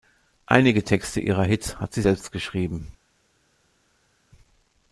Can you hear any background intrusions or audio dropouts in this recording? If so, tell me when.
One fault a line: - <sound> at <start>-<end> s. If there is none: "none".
none